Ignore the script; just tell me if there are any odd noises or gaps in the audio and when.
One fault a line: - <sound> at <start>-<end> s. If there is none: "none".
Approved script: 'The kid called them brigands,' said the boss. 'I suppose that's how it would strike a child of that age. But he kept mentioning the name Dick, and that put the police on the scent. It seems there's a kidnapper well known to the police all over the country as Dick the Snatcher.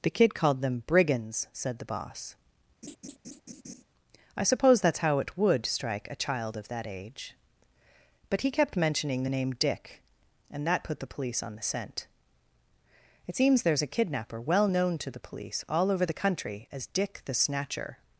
- laugh at 2.8-3.8 s